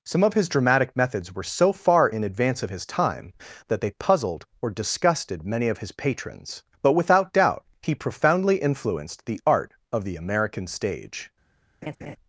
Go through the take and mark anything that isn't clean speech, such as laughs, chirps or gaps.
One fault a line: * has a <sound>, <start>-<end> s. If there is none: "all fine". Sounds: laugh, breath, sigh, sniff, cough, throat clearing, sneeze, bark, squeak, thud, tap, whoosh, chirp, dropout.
* has a laugh, 11.8-12.2 s